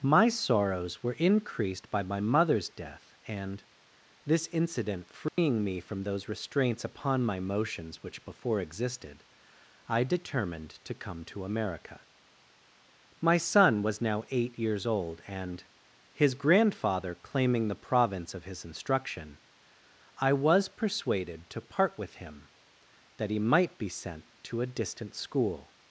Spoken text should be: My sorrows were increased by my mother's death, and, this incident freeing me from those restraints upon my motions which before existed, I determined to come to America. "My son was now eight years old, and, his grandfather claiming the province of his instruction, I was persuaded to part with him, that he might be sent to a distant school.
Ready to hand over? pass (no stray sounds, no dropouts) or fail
fail